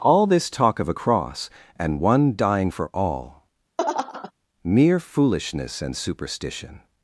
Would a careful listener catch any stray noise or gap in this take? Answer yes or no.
yes